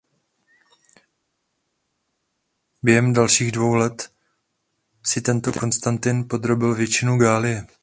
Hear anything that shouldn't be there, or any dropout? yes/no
no